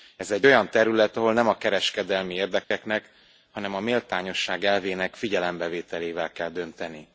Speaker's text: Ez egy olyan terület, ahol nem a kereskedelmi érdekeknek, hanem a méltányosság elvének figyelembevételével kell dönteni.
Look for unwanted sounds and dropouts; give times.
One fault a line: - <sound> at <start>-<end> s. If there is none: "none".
- dropout at 2.6-2.7 s